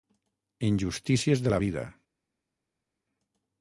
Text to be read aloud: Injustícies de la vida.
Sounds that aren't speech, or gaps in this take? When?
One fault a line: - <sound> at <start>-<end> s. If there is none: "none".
none